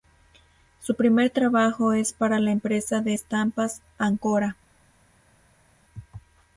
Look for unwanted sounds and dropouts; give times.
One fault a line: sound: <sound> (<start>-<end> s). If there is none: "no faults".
no faults